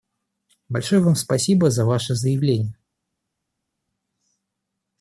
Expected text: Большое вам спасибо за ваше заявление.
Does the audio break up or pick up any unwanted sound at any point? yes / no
no